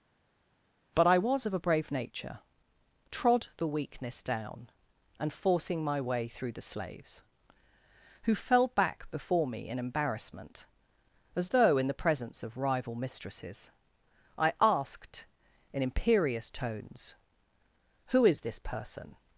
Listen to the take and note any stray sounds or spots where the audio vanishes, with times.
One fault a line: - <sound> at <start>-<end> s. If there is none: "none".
none